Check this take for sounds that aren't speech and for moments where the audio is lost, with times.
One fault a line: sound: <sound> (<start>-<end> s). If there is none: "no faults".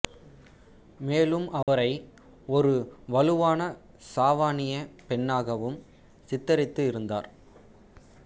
sound: dropout (1.6-1.7 s)